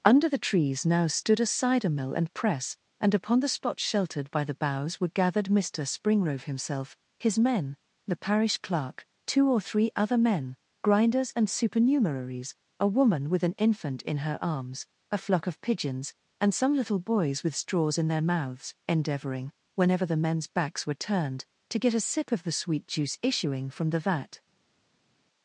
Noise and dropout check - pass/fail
pass